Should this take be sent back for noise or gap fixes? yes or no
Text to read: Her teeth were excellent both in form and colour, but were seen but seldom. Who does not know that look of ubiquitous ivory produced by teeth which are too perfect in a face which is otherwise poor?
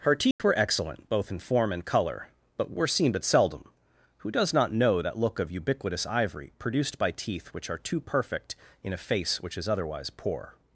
yes